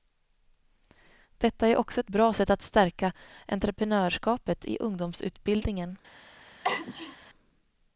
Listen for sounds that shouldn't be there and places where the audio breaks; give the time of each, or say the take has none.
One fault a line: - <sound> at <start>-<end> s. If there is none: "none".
- sneeze at 6.6-7.2 s